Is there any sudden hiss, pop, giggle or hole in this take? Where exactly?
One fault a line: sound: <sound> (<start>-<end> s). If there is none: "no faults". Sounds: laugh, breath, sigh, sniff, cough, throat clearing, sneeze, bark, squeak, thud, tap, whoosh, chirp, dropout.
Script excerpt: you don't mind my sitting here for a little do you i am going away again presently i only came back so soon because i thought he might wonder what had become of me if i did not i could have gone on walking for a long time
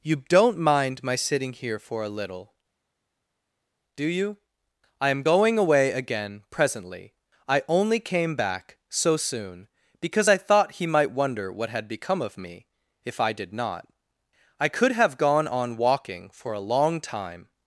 no faults